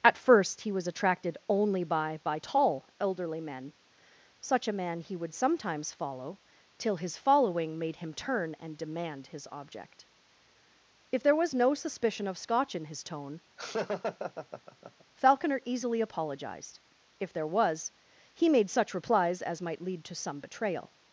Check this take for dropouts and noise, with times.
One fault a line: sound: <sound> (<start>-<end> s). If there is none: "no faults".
sound: laugh (13.6-15.0 s)